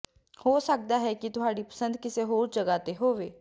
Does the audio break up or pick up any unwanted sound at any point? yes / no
no